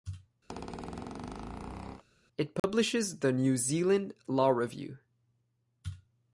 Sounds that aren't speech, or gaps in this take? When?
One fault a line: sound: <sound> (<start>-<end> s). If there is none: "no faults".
sound: squeak (0.5-2.0 s)
sound: dropout (2.6-2.6 s)